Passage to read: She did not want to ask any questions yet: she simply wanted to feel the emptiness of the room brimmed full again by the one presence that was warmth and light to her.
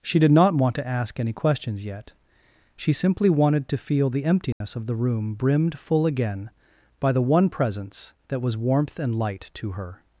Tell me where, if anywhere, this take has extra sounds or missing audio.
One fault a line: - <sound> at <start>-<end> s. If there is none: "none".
- dropout at 4.5-4.6 s